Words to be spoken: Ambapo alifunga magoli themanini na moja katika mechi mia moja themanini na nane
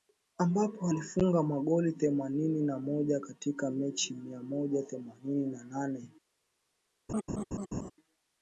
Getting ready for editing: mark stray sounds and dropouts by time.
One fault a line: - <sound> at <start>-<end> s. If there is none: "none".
- laugh at 7.1-7.9 s